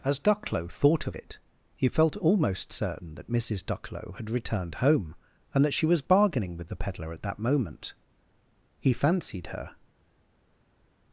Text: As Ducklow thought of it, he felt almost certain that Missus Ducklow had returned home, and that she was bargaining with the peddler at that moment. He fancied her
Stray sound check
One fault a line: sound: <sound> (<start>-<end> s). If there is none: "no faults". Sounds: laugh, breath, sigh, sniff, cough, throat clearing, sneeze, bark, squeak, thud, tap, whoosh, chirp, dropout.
no faults